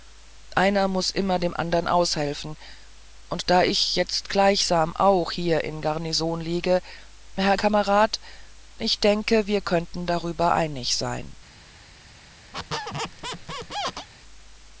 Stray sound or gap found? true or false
true